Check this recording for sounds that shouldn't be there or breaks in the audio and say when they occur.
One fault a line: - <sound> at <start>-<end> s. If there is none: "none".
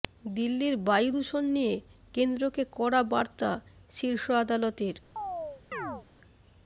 - chirp at 5.2-6.1 s